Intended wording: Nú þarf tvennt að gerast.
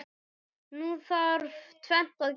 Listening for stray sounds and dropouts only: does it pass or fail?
pass